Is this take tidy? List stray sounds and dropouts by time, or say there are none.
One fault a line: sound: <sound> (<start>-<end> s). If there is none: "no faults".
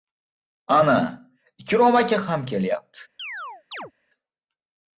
sound: chirp (3.2-3.9 s)